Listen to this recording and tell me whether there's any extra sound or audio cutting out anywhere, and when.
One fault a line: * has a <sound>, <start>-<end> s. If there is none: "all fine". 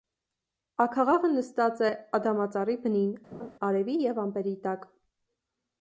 * has a laugh, 3.3-3.5 s